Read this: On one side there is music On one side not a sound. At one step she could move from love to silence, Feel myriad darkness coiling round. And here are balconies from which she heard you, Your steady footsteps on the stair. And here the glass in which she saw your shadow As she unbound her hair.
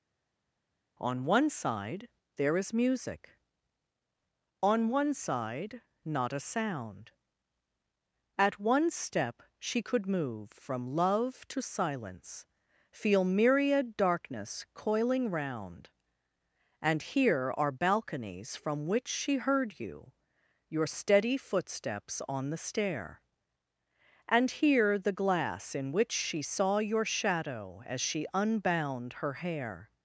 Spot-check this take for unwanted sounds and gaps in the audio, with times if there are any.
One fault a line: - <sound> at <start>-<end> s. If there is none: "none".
none